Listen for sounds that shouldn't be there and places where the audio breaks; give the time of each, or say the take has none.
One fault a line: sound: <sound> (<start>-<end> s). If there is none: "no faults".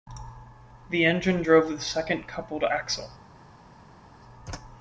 no faults